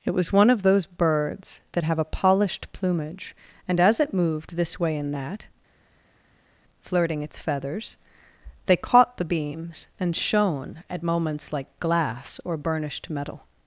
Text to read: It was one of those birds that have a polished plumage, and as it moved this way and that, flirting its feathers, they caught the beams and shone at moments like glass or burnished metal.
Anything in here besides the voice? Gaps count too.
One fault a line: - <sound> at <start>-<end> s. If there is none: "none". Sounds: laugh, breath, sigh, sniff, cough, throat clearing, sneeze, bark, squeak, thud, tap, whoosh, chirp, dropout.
none